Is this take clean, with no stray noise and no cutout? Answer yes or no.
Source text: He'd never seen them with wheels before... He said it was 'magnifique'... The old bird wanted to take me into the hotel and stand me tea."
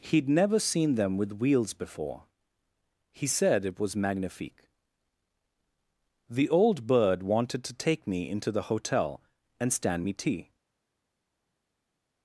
yes